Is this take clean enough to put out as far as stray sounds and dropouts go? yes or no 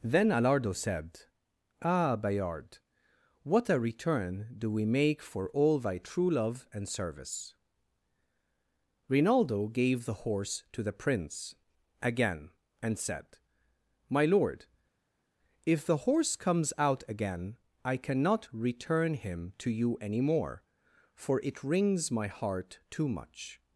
yes